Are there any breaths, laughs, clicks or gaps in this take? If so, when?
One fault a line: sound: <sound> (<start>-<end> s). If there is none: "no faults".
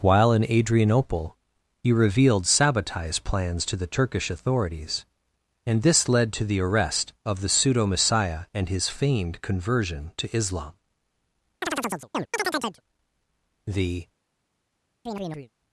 sound: chirp (11.6-12.8 s)
sound: chirp (15.1-15.5 s)